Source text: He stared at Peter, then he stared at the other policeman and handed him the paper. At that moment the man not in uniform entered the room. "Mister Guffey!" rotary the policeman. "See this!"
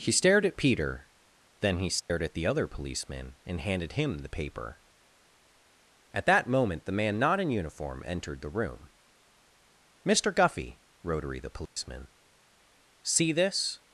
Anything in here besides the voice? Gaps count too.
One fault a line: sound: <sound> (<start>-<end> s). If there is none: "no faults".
sound: dropout (2.0-2.1 s)
sound: dropout (11.7-11.8 s)